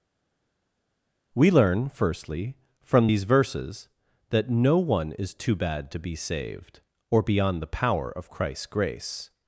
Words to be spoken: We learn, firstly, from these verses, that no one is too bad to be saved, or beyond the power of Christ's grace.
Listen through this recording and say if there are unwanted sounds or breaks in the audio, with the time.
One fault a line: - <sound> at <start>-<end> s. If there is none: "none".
none